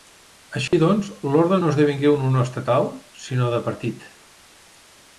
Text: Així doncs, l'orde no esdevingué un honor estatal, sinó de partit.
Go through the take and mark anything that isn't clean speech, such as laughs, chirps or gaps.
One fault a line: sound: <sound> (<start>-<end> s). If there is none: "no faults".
sound: dropout (0.7-0.7 s)